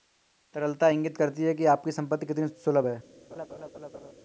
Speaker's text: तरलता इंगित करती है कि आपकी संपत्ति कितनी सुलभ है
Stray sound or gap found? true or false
true